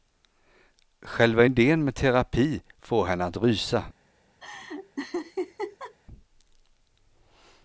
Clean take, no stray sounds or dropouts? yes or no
no